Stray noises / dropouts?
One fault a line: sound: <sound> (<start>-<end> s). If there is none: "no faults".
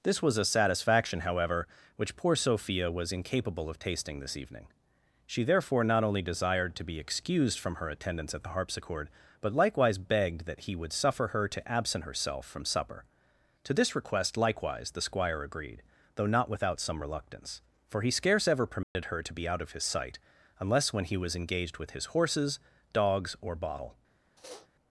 sound: dropout (18.8-19.0 s)
sound: sniff (24.4-24.7 s)